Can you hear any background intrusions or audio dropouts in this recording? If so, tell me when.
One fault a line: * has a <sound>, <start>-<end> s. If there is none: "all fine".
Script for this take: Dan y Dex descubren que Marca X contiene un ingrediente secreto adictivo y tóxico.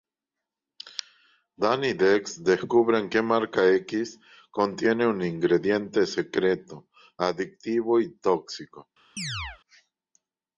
* has a chirp, 9.2-9.6 s